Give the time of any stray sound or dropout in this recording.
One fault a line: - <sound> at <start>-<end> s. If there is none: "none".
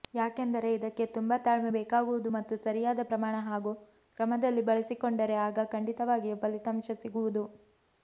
none